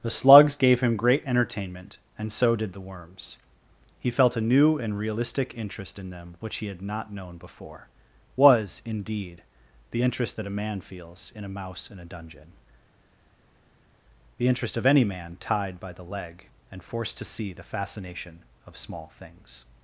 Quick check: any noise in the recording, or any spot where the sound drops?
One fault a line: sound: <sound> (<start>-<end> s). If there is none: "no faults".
no faults